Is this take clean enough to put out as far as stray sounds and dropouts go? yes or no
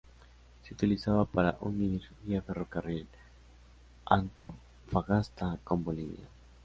no